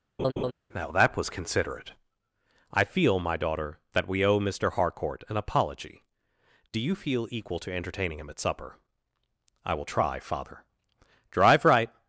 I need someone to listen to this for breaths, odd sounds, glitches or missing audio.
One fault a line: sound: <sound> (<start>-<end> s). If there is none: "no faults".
sound: laugh (0.2-0.5 s)